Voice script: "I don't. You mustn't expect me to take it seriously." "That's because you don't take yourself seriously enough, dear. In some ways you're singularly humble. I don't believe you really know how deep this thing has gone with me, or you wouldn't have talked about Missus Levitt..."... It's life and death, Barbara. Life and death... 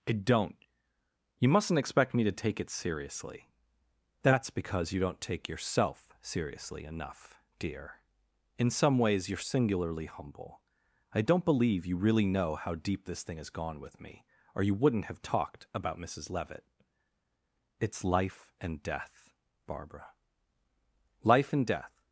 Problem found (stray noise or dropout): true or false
false